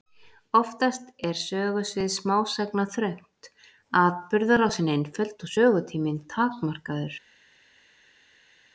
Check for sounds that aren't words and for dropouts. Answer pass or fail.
pass